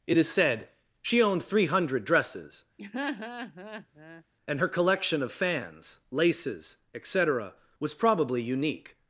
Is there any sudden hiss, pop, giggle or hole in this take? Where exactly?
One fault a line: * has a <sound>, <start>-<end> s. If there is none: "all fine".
* has a laugh, 2.8-4.2 s